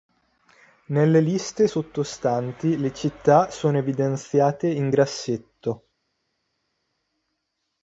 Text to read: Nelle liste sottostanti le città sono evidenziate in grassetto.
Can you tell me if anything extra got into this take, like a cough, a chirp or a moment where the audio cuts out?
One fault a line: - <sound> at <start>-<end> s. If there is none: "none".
none